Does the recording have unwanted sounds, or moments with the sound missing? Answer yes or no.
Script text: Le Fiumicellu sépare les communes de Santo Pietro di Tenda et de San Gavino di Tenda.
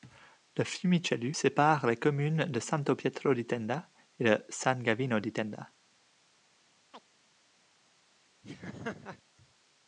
yes